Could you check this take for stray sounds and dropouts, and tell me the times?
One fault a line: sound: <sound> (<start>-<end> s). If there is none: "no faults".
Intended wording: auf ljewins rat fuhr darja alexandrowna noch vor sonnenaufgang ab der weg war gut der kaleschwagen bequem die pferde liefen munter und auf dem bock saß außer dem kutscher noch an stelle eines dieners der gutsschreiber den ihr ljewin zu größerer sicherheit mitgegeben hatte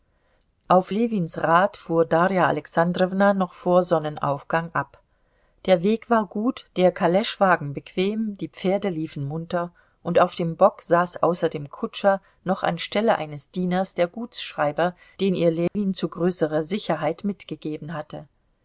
sound: dropout (15.7-15.7 s)